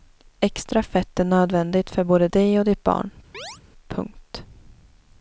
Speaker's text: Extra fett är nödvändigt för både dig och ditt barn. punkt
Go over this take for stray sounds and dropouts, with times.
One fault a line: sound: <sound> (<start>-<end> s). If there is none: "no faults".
sound: chirp (3.3-3.6 s)